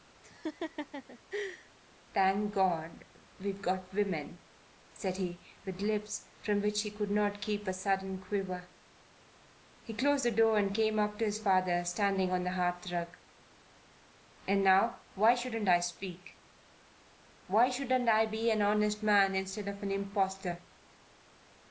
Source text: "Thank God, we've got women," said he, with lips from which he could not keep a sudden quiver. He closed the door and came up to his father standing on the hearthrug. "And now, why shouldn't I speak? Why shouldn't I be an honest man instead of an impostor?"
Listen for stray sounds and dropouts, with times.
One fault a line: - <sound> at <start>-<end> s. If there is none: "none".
- laugh at 0.2-1.7 s